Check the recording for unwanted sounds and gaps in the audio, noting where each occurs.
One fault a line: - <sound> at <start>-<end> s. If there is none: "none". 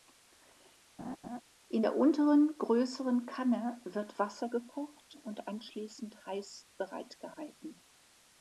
- laugh at 1.0-1.4 s